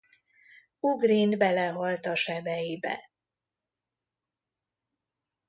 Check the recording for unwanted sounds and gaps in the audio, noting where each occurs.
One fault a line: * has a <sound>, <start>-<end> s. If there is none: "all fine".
all fine